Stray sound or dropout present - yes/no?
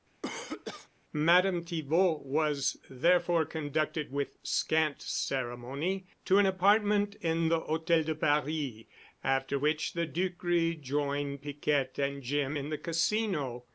yes